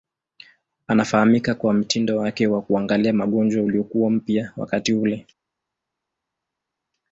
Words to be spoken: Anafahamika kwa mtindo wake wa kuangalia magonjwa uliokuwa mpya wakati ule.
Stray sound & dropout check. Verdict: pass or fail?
pass